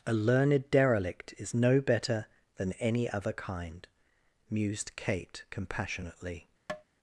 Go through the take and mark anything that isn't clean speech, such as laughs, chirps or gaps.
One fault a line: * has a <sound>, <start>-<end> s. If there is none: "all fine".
* has a tap, 6.7-6.8 s